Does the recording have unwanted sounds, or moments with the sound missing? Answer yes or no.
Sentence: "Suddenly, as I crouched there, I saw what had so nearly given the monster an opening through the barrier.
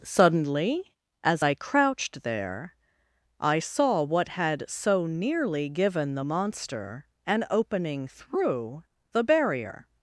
no